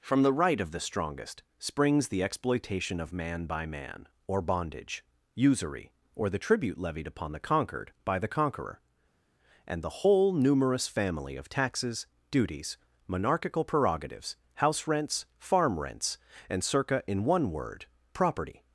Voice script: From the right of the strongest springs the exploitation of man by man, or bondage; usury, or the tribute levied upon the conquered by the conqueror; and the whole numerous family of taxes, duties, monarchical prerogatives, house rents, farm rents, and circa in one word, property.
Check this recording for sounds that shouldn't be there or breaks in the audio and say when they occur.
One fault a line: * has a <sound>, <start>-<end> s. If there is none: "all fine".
all fine